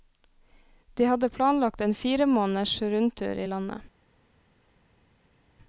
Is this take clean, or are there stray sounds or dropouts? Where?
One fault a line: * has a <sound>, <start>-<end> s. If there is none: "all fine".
all fine